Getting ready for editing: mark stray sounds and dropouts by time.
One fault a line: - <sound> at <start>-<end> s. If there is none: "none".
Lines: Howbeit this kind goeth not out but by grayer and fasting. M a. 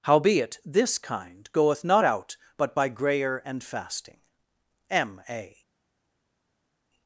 none